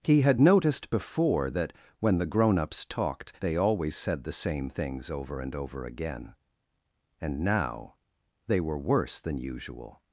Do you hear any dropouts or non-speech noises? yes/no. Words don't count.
no